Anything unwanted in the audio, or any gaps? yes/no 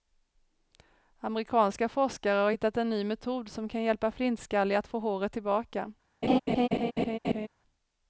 yes